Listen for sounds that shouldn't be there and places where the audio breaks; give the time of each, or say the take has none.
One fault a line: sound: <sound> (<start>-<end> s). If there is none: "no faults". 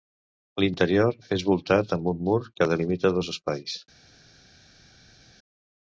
no faults